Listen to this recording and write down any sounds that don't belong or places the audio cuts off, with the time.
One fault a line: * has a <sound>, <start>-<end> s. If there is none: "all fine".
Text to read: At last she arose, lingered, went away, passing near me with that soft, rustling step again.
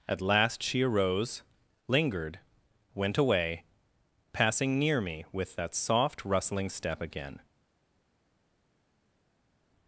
all fine